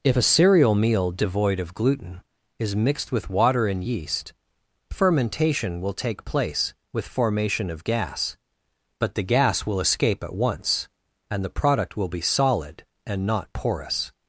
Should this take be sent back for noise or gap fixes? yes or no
no